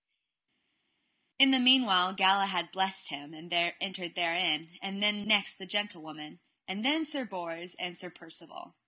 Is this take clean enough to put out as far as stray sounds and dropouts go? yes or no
yes